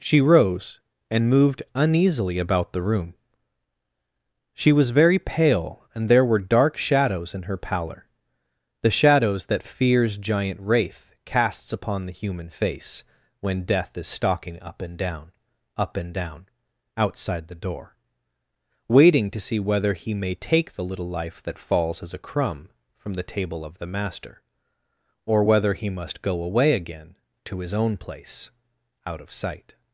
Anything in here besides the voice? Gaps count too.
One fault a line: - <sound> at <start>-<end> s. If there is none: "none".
none